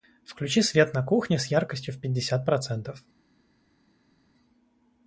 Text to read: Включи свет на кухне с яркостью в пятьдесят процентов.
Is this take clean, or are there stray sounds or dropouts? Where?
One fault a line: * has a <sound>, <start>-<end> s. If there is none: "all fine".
all fine